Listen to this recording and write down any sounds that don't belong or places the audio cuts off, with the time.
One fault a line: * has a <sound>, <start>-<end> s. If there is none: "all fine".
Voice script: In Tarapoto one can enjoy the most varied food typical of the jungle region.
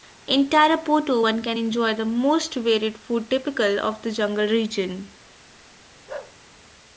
* has a bark, 6.1-6.4 s